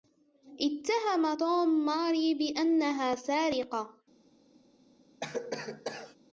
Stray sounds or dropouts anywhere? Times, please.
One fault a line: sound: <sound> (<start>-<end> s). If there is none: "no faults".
sound: cough (5.2-6.2 s)